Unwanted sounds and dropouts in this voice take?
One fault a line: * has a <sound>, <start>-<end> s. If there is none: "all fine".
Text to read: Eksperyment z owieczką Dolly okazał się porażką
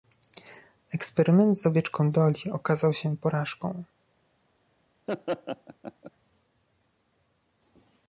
* has a laugh, 5.1-6.1 s